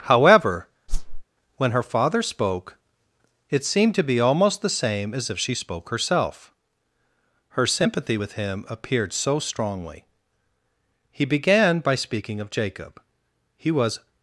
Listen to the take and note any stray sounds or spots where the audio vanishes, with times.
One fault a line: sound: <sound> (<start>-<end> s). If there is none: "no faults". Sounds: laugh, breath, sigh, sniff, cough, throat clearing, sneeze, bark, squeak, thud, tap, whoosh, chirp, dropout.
sound: whoosh (0.9-1.2 s)